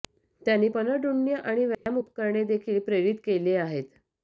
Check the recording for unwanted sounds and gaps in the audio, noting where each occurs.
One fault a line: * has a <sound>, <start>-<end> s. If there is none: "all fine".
* has a dropout, 1.7-1.9 s